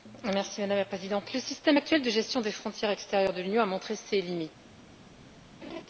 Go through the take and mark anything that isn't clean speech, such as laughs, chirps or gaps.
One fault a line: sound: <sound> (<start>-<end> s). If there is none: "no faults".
sound: laugh (5.6-5.8 s)